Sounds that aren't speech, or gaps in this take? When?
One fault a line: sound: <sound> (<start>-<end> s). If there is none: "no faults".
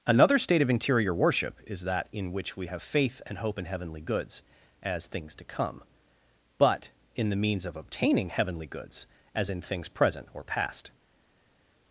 no faults